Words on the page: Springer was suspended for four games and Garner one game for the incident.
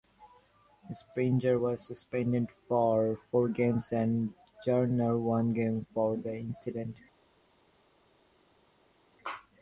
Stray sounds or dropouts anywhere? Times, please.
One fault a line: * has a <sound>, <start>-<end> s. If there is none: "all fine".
all fine